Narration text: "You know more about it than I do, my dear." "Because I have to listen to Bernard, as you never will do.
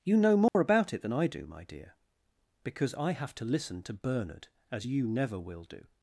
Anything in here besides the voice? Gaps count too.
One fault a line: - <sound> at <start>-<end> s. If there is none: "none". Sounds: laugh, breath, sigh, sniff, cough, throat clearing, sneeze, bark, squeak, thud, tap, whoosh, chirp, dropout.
- dropout at 0.5-0.5 s